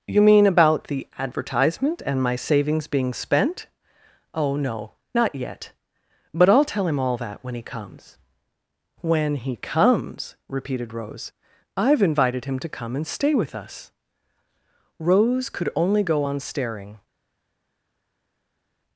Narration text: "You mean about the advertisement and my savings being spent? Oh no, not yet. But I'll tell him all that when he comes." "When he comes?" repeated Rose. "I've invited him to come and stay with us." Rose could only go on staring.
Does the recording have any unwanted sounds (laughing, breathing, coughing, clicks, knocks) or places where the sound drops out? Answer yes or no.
no